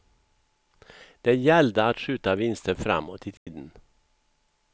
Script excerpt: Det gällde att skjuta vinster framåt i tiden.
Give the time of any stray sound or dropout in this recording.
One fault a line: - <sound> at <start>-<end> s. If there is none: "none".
- dropout at 3.4-3.5 s